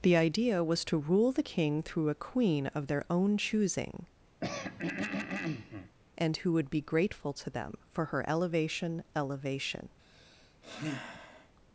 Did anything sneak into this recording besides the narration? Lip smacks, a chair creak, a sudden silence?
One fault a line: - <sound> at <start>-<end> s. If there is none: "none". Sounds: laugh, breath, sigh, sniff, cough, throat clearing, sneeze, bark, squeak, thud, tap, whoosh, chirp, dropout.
- throat clearing at 4.4-6.0 s
- sigh at 10.0-11.5 s